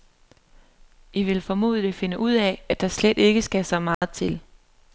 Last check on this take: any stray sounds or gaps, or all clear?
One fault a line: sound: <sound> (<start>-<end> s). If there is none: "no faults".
sound: dropout (3.9-4.0 s)